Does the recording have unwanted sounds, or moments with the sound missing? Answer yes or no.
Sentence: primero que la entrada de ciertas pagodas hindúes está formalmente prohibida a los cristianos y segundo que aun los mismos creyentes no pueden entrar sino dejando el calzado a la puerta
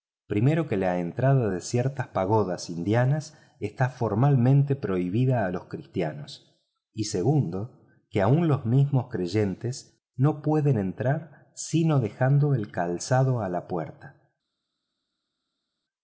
no